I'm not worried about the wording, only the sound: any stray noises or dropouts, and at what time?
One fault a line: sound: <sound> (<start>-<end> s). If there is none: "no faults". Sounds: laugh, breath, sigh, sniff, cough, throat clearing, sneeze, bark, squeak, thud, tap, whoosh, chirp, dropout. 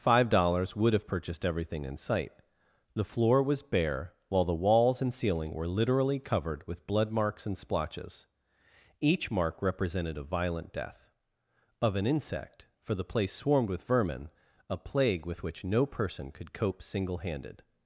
no faults